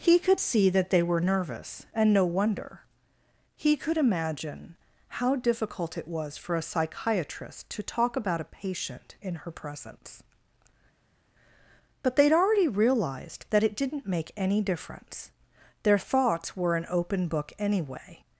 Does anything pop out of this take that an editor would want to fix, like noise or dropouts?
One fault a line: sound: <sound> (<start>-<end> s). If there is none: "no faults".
no faults